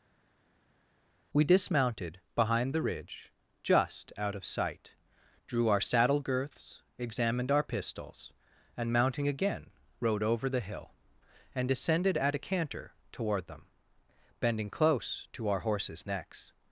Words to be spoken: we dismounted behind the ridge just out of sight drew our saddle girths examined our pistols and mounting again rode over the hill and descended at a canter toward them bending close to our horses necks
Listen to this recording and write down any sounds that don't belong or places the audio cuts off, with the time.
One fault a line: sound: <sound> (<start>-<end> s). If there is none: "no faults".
no faults